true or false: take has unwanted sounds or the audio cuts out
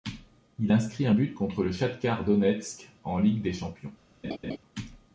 true